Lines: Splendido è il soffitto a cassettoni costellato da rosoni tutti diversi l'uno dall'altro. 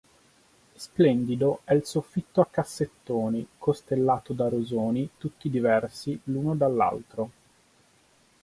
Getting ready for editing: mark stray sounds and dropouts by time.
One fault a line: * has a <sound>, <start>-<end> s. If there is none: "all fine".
all fine